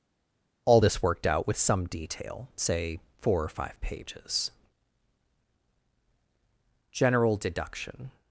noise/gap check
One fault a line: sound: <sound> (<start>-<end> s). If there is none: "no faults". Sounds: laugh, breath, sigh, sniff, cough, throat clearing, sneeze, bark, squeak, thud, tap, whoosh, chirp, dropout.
no faults